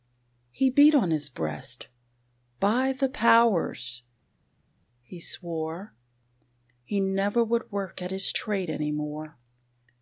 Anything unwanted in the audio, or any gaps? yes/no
no